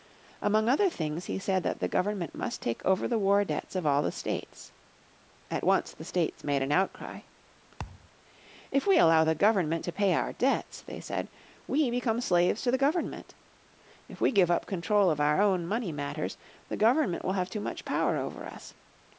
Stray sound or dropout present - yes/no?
yes